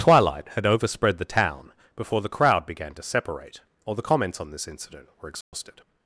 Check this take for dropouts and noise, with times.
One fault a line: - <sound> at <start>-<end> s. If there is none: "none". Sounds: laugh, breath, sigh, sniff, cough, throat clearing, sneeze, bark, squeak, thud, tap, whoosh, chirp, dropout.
- dropout at 5.4-5.5 s